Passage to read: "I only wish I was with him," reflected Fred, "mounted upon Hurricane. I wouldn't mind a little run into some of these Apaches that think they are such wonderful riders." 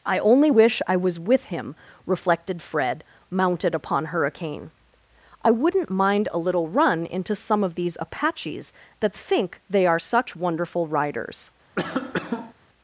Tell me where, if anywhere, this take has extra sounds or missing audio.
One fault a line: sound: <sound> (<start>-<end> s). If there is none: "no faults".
sound: cough (11.8-12.5 s)